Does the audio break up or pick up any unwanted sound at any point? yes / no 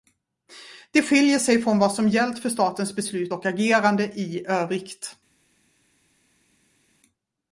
no